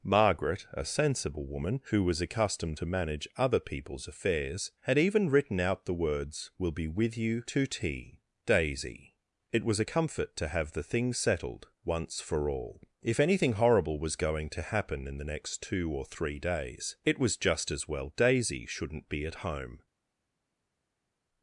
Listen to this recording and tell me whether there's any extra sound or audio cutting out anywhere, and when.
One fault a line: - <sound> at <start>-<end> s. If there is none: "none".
none